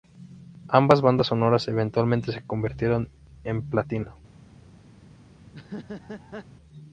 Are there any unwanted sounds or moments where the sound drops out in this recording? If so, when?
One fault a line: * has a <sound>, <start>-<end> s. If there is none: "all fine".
* has a laugh, 5.5-6.5 s